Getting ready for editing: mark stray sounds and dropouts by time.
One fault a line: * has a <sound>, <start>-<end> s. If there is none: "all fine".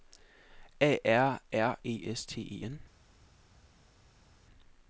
all fine